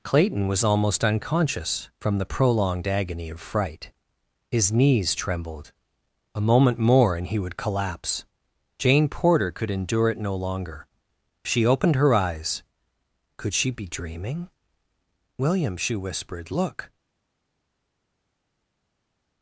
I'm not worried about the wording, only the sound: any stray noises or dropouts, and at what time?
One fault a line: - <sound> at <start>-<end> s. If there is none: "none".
none